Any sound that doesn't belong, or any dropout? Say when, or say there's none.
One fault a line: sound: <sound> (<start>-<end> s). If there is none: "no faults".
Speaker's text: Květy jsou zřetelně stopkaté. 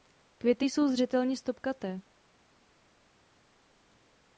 no faults